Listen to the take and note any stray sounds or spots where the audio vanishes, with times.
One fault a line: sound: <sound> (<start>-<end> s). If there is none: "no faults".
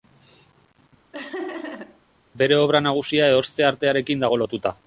sound: laugh (1.1-2.0 s)